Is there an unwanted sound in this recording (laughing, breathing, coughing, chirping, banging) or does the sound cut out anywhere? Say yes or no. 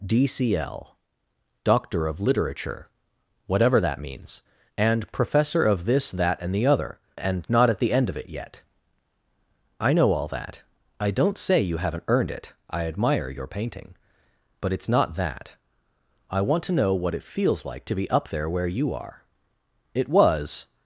no